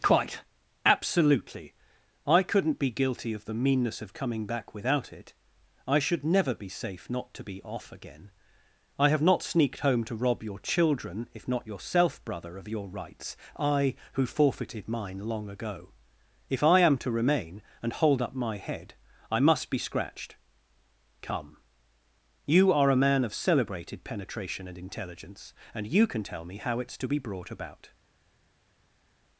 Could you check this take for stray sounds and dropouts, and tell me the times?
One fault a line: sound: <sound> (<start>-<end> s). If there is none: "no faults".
no faults